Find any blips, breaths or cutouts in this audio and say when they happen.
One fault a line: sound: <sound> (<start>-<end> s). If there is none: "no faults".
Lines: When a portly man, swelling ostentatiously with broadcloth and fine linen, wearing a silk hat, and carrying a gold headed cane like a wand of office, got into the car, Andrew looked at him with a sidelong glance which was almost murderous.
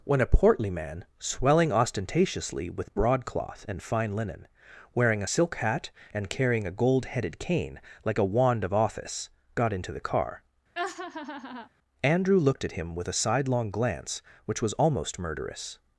sound: laugh (10.8-11.7 s)